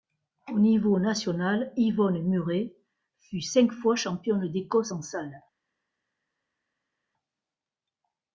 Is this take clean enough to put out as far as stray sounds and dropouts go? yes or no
yes